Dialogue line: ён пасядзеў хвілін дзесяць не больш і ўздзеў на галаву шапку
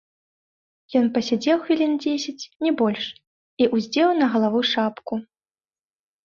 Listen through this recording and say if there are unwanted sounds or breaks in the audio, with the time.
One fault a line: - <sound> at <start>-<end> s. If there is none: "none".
none